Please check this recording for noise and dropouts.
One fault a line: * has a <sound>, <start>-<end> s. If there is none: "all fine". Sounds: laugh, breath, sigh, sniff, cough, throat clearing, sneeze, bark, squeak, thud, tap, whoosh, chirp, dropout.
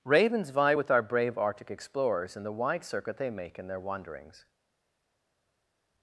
all fine